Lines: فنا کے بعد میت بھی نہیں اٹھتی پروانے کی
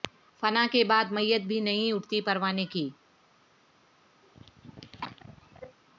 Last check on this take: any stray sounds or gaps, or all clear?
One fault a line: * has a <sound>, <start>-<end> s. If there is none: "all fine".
* has a cough, 4.2-5.8 s